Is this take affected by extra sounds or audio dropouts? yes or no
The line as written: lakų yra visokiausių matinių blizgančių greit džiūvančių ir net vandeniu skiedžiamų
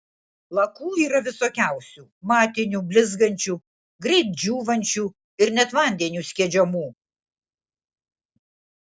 no